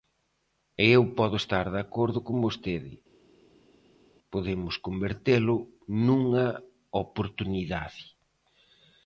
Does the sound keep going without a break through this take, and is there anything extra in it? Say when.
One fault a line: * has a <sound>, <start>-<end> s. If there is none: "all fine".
all fine